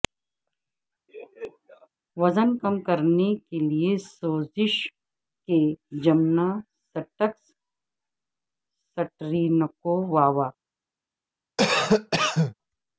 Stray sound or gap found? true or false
true